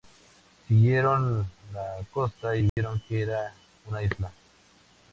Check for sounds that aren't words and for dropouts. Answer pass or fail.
fail